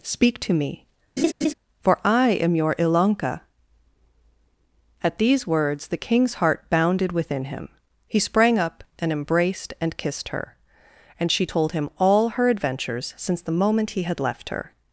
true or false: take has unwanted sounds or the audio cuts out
true